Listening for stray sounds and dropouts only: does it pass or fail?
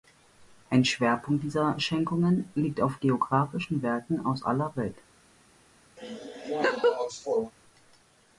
fail